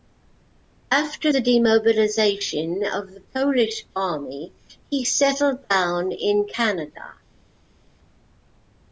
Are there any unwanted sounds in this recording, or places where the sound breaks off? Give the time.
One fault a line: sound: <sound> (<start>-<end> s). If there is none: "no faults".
no faults